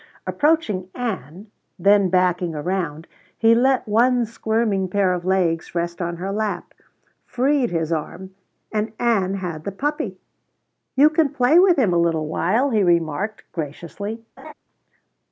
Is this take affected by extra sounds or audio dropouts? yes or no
yes